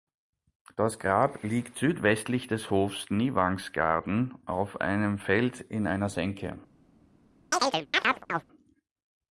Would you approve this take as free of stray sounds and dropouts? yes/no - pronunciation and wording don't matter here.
no